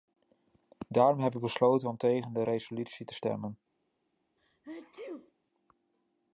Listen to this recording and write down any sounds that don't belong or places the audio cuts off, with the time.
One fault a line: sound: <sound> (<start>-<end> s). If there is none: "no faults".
sound: sneeze (4.4-5.3 s)